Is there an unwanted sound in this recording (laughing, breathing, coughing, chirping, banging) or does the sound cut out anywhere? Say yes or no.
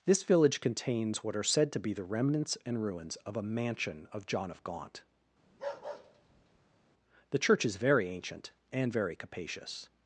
yes